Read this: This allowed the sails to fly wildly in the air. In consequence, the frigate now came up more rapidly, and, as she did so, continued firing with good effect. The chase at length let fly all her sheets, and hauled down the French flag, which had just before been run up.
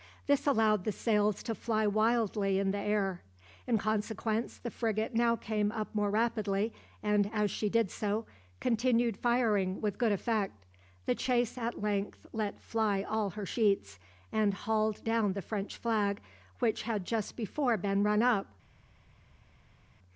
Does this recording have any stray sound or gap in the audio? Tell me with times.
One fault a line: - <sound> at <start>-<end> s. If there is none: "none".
none